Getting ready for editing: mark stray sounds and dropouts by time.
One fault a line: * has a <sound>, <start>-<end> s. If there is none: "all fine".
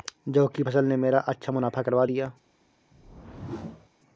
* has a whoosh, 2.9-3.9 s